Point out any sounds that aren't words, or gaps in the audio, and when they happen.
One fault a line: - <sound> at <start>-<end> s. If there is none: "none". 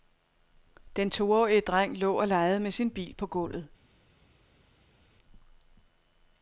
none